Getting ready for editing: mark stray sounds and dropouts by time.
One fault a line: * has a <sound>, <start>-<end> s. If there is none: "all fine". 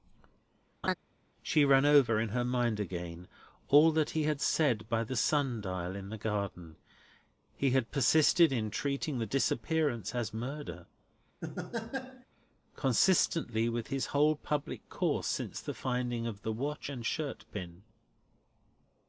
* has a laugh, 0.8-0.9 s
* has a laugh, 11.4-12.3 s